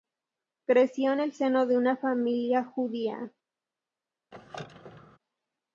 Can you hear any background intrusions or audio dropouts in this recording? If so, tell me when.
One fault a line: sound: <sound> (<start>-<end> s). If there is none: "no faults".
sound: squeak (4.3-5.2 s)